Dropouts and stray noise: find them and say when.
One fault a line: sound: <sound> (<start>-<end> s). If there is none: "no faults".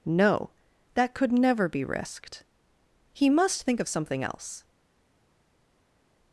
no faults